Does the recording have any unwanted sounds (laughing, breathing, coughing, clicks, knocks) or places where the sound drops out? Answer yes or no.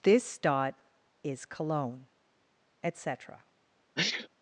yes